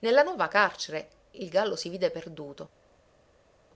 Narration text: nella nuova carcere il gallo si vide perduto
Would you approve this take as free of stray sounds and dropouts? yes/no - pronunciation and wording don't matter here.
yes